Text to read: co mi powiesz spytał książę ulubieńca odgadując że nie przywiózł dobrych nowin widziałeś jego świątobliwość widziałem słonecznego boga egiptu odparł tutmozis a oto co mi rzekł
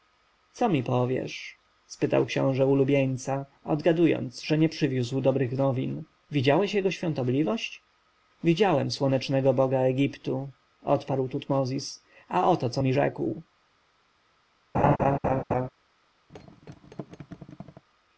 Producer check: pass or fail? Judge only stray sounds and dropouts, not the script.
fail